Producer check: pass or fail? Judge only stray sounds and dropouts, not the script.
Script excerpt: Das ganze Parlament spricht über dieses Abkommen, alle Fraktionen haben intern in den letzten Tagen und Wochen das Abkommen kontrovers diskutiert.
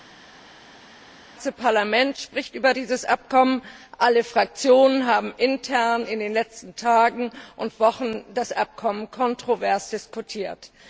pass